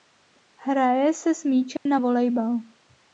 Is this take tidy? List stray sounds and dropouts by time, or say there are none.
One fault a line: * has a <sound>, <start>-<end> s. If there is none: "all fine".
* has a dropout, 1.8-1.9 s